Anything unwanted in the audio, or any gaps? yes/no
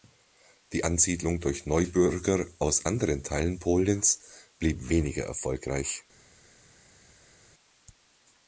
no